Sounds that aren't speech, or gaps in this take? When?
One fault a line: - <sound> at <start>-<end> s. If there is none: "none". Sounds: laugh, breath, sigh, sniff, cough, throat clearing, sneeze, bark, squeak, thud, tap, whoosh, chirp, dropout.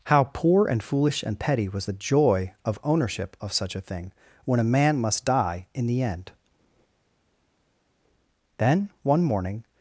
none